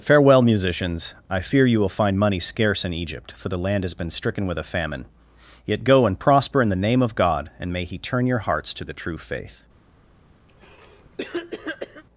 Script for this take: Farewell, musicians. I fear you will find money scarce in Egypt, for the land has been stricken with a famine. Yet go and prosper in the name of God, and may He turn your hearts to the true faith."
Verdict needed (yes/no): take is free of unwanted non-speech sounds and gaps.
no